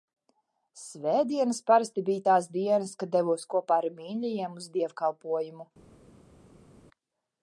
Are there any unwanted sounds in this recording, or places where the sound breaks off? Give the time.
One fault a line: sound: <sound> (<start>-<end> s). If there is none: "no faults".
no faults